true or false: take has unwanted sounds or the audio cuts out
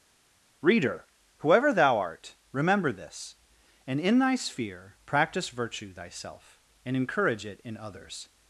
false